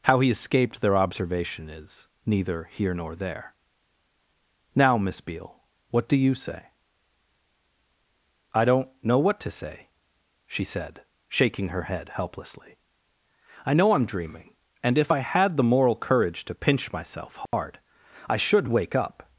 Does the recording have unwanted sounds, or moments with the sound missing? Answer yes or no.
yes